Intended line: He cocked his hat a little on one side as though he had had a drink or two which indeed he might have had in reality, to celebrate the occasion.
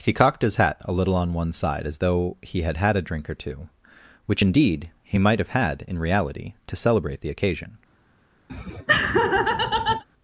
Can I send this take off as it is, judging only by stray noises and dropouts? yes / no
no